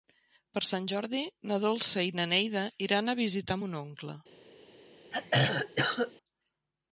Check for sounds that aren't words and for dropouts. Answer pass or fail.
fail